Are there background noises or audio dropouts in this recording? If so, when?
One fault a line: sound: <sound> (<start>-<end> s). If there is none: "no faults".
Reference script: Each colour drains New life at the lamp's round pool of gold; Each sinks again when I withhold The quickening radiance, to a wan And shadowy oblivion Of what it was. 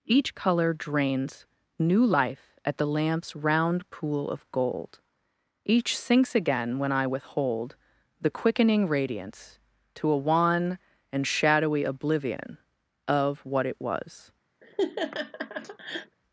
sound: laugh (14.6-16.2 s)